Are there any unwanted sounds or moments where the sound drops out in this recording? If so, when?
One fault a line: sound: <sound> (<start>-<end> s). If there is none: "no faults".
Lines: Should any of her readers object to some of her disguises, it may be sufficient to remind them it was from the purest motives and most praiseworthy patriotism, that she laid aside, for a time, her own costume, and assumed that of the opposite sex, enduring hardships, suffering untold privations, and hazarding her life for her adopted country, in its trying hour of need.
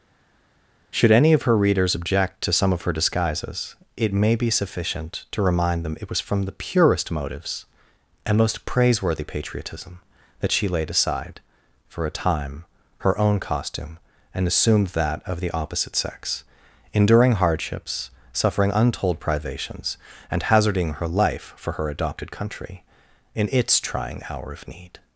no faults